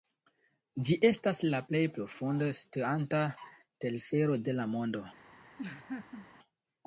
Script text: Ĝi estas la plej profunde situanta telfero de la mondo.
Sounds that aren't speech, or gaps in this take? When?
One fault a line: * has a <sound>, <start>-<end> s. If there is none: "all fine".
* has a laugh, 5.6-6.3 s